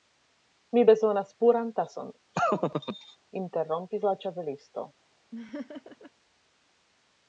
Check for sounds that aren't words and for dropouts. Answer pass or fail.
fail